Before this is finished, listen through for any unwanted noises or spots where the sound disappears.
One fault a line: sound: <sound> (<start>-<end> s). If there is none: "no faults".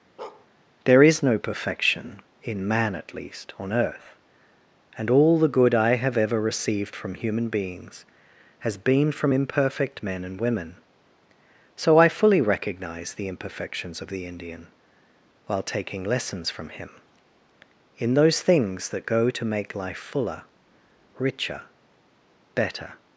sound: bark (0.2-0.5 s)